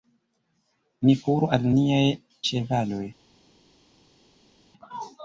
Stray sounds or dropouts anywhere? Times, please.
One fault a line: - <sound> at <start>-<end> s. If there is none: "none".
none